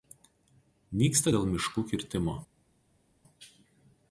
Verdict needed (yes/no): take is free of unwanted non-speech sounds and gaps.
yes